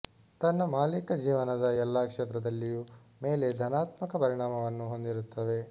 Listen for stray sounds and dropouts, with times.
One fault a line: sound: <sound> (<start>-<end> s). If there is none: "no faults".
no faults